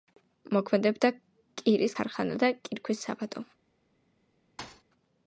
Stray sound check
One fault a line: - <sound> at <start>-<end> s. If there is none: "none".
- thud at 4.6-4.8 s